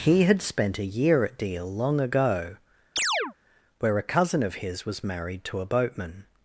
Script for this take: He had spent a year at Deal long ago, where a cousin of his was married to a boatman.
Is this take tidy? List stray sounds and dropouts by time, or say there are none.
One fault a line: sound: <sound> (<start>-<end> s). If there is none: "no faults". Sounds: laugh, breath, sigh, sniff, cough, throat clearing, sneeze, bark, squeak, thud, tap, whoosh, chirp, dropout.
sound: chirp (3.0-3.3 s)